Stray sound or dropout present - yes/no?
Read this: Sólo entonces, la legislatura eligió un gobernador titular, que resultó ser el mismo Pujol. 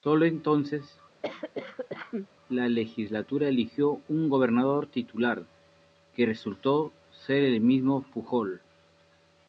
yes